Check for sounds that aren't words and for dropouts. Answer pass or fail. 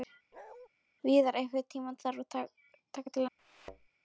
fail